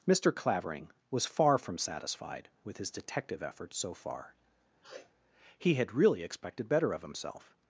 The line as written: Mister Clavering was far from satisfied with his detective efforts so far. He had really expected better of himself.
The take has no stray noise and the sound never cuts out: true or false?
false